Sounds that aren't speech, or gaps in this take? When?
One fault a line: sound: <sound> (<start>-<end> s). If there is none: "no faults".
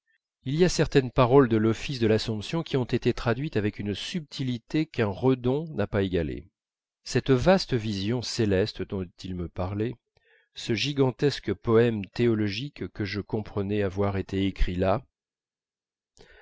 no faults